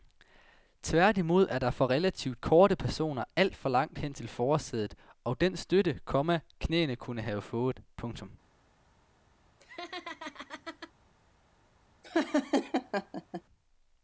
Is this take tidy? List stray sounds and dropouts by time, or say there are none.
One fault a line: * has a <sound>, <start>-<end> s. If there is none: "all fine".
* has a laugh, 9.6-10.9 s
* has a laugh, 12.0-13.4 s